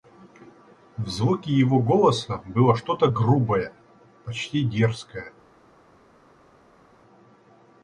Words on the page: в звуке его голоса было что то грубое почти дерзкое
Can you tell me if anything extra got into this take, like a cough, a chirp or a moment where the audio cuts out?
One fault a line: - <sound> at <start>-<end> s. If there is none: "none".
none